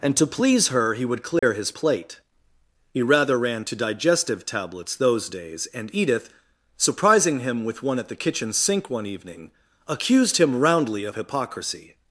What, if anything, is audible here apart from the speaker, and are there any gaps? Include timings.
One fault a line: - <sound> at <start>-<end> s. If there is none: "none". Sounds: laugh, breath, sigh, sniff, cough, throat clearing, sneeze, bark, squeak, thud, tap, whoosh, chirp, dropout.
- dropout at 1.4-1.4 s